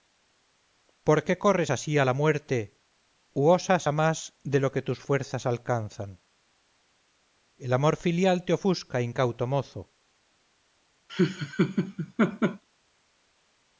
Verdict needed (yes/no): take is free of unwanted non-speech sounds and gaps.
no